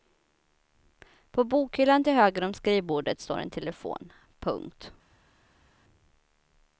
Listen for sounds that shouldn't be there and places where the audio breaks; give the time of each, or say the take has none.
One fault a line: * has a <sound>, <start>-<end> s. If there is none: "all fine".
all fine